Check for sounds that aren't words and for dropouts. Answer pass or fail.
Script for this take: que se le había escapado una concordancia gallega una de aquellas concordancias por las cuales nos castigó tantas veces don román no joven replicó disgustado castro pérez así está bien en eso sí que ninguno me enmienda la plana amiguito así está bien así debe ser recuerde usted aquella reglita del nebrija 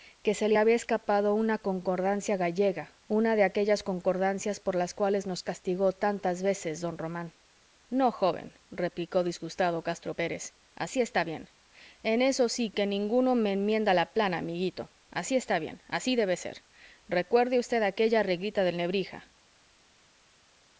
pass